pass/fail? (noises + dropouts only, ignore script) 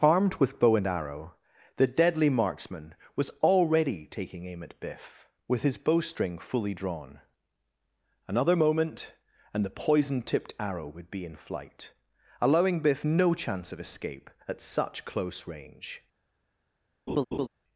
fail